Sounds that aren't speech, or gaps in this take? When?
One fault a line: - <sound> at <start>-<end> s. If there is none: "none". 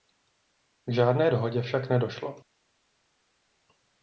none